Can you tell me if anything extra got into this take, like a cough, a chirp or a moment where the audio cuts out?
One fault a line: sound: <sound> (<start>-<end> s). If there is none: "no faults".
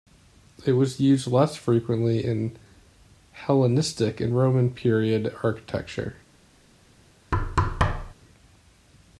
sound: thud (7.3-8.1 s)